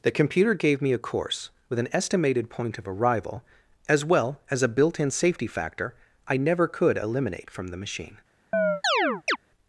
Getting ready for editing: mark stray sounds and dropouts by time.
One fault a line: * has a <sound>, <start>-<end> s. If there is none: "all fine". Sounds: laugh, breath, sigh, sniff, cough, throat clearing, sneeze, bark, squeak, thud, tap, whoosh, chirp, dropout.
* has a chirp, 8.5-9.4 s